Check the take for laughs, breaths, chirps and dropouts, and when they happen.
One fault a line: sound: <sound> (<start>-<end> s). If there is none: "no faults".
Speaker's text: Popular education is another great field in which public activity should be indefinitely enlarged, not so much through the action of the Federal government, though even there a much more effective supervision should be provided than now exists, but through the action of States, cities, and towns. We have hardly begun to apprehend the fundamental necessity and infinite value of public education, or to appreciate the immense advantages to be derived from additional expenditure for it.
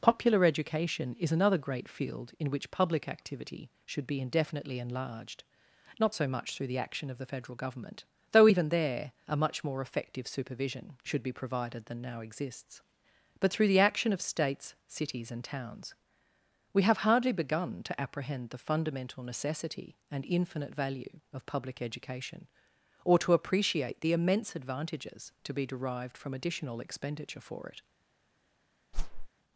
sound: whoosh (28.9-29.3 s)